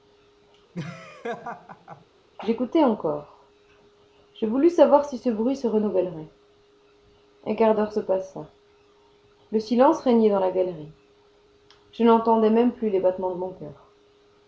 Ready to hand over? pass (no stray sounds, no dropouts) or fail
fail